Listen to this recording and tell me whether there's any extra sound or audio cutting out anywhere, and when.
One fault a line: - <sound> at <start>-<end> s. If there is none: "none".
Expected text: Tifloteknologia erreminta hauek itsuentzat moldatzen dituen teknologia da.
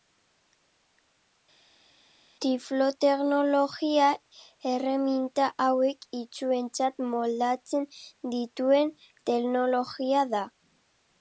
none